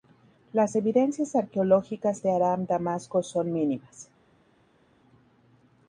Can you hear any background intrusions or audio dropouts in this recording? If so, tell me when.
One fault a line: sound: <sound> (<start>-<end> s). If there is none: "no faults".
no faults